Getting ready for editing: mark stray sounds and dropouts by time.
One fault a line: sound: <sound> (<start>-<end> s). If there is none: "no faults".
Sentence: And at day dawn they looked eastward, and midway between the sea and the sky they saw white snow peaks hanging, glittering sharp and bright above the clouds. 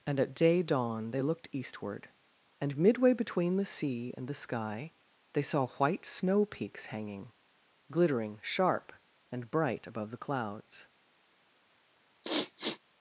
sound: sniff (12.2-12.8 s)